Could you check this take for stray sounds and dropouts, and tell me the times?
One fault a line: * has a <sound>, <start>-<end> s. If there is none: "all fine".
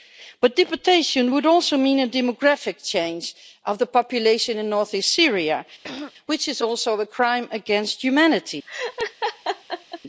* has a throat clearing, 5.8-6.1 s
* has a laugh, 8.7-10.0 s